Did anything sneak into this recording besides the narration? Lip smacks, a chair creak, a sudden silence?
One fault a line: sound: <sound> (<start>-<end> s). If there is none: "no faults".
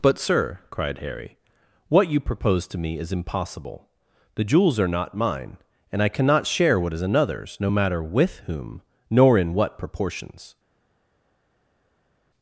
no faults